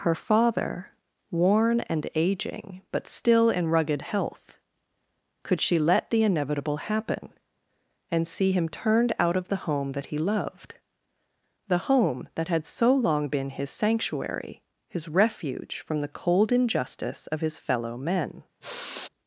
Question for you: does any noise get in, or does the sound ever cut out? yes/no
yes